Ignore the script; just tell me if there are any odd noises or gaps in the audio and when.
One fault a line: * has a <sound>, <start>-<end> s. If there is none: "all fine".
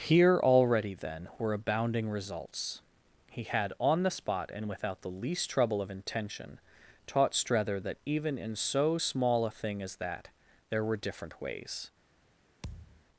* has a thud, 12.6-13.0 s